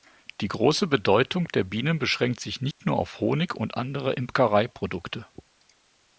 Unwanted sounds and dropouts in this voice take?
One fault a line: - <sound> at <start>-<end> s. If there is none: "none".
- dropout at 2.7-2.8 s